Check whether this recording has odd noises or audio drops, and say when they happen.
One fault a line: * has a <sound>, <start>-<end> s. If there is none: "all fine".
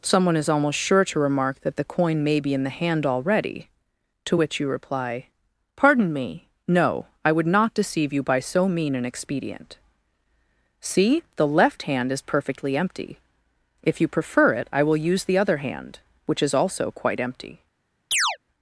* has a chirp, 18.1-18.4 s